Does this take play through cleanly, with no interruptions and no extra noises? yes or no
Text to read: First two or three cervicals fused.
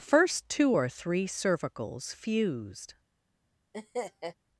no